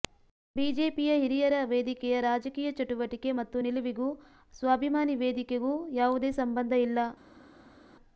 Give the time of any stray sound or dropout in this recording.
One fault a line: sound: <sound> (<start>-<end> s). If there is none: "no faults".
no faults